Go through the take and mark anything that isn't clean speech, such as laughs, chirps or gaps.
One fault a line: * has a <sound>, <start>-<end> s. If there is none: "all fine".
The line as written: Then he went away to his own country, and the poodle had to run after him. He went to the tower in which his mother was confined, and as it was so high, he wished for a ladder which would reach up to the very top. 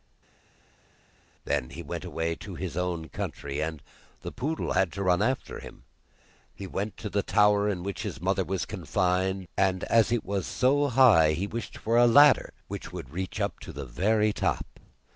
all fine